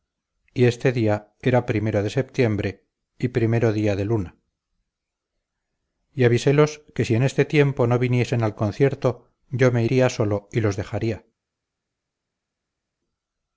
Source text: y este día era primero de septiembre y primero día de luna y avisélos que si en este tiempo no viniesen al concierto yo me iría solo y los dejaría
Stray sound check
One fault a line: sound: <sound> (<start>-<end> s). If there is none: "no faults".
no faults